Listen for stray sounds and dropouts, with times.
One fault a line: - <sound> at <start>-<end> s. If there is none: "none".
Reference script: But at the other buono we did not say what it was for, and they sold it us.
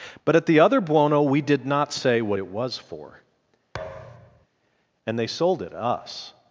- thud at 3.7-4.5 s